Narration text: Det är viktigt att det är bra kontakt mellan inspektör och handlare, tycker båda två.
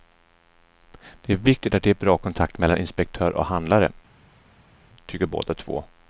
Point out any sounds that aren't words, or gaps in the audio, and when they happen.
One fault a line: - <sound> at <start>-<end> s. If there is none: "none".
none